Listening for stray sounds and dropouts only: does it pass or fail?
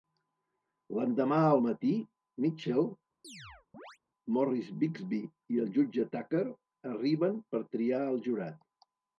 fail